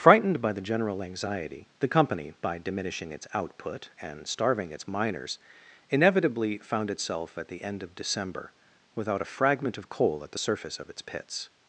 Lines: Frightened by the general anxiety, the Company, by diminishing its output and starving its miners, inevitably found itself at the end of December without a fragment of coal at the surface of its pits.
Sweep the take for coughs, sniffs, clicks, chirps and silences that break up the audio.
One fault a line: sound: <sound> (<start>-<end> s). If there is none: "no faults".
no faults